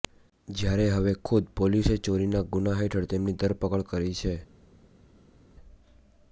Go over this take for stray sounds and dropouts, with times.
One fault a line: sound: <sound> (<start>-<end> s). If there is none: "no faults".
no faults